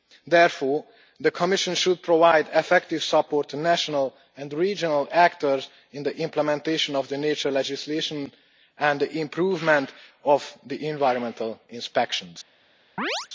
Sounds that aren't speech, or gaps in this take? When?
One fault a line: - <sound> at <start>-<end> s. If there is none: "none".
- chirp at 13.0-13.3 s